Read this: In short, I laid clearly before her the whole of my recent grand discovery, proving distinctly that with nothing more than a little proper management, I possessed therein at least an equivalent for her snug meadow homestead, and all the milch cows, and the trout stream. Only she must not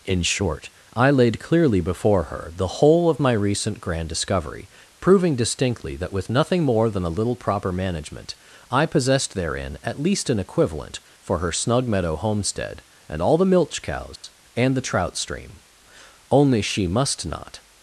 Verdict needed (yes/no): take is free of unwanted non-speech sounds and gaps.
no